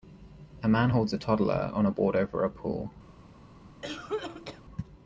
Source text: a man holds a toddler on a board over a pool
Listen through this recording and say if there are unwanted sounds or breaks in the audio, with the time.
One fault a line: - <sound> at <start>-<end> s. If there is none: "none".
- cough at 3.8-4.6 s